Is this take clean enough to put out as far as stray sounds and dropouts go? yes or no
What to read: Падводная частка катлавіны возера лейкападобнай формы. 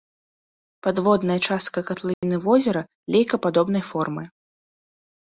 no